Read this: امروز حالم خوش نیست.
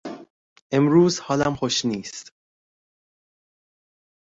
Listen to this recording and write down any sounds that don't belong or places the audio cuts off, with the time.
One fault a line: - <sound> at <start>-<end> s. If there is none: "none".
none